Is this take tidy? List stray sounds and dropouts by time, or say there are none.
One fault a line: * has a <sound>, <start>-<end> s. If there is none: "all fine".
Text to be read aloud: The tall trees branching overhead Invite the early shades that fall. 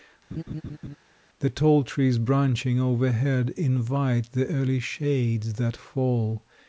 * has a laugh, 0.3-1.0 s